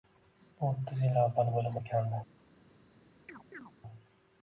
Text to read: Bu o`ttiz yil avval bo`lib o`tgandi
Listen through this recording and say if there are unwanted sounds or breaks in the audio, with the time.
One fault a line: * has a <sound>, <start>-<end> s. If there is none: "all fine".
* has a chirp, 3.3-3.7 s